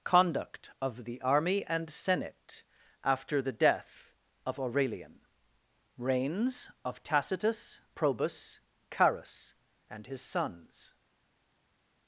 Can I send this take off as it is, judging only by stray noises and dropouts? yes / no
yes